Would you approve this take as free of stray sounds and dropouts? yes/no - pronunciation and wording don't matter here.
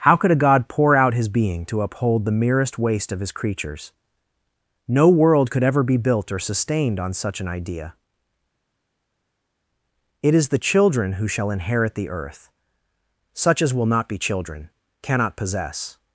yes